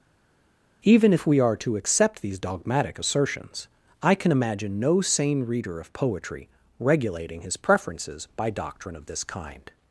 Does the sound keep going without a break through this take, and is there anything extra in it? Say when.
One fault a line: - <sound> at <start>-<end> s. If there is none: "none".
none